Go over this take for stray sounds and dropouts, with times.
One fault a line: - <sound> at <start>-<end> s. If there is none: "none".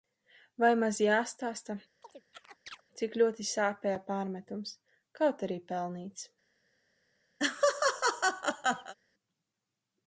- chirp at 2.0-2.8 s
- laugh at 7.4-8.9 s